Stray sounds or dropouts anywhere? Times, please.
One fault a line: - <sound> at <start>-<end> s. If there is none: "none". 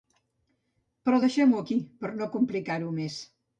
none